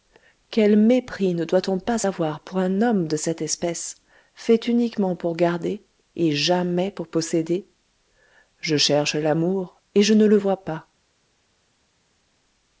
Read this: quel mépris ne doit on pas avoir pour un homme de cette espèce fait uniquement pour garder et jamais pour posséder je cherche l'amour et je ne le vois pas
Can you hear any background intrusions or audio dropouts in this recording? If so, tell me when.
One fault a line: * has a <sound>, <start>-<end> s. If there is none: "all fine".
all fine